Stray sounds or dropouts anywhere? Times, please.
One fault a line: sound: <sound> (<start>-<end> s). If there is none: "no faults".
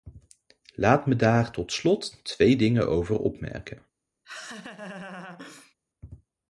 sound: laugh (4.2-5.7 s)